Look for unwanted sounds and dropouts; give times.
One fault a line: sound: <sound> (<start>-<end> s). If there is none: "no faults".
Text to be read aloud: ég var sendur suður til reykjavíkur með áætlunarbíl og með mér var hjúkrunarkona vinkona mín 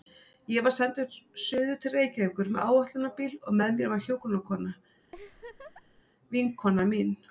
sound: laugh (5.1-6.0 s)